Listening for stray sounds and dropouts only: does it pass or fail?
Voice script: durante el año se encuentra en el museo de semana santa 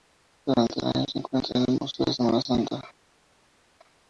pass